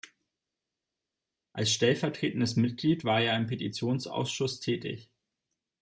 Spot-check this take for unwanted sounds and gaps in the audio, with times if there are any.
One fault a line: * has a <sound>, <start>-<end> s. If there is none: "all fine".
all fine